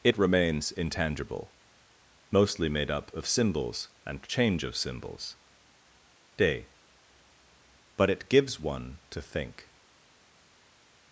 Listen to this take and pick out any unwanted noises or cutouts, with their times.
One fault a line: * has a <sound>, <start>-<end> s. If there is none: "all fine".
all fine